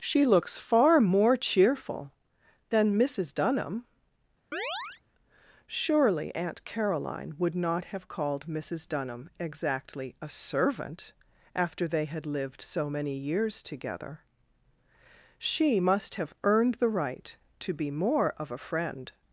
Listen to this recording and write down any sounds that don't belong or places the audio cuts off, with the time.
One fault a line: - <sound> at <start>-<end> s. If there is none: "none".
- chirp at 4.5-5.0 s